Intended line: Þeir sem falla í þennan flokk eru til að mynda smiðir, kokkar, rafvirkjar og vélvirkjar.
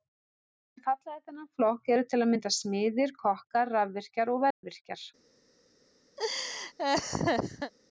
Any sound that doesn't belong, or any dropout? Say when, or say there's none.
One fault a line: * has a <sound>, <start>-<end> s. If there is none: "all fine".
* has a dropout, 4.5-4.6 s
* has a laugh, 6.2-7.7 s